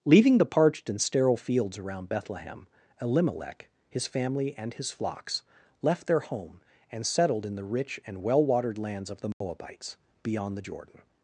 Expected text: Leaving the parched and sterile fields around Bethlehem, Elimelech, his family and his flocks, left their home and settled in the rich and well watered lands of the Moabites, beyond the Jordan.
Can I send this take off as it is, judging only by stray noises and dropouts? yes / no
no